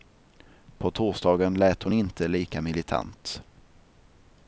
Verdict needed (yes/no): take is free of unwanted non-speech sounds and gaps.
yes